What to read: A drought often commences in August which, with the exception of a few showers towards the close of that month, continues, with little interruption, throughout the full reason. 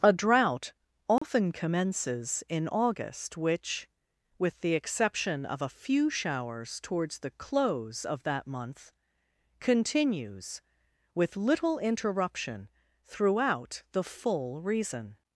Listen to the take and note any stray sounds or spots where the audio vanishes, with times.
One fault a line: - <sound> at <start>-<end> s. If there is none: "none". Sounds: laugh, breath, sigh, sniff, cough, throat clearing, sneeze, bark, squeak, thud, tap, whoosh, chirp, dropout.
- dropout at 1.2-1.2 s